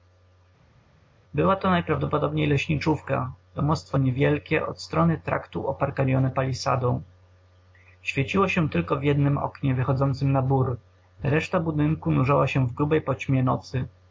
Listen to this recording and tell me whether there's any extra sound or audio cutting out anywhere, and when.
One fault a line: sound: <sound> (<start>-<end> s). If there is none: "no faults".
no faults